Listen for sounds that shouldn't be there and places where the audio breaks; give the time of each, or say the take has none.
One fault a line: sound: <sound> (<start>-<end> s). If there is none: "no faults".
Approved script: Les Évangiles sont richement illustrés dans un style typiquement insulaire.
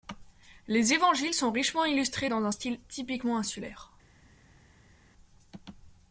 no faults